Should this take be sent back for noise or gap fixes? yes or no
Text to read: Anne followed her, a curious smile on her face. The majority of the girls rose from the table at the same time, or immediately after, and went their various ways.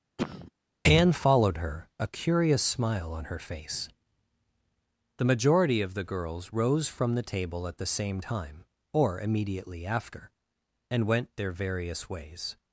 yes